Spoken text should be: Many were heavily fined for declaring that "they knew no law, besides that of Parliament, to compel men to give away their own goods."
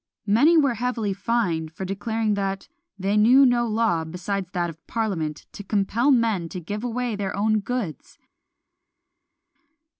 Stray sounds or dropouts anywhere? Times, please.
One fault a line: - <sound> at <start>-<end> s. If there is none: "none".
none